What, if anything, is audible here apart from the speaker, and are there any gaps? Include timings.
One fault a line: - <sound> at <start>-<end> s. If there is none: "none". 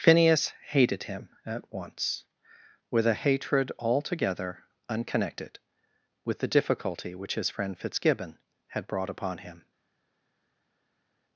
none